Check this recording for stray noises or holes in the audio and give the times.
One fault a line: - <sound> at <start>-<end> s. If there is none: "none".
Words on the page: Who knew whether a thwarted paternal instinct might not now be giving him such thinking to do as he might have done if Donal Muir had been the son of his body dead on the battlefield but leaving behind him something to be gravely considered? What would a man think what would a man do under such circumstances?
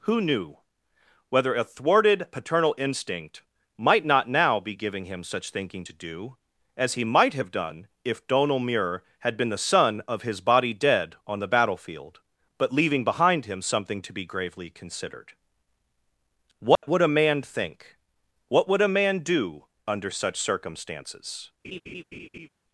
- dropout at 16.8-16.8 s
- laugh at 21.6-22.5 s